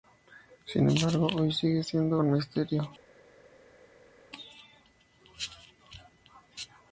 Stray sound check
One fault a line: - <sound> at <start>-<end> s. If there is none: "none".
none